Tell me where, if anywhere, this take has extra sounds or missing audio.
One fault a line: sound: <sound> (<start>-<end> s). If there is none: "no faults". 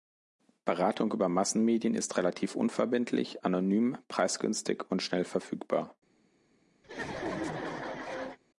sound: laugh (6.8-8.4 s)